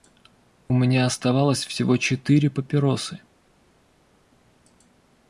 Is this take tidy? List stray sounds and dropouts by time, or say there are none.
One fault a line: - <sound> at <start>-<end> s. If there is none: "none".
none